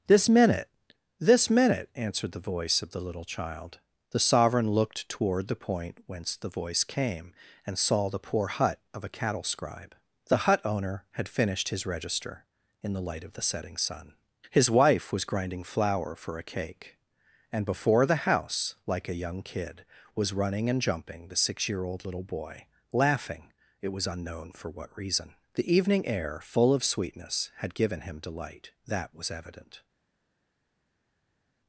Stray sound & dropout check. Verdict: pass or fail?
pass